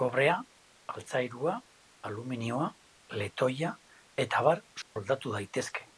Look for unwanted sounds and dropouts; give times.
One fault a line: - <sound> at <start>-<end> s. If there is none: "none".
- dropout at 4.8-5.0 s